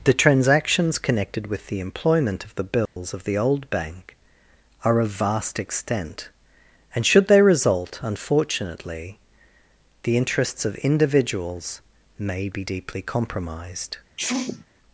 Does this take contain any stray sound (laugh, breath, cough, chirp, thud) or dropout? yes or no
yes